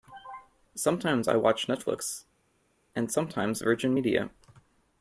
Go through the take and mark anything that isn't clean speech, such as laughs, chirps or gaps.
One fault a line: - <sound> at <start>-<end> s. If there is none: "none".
none